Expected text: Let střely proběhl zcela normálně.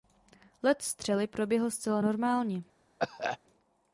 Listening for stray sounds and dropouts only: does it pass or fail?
fail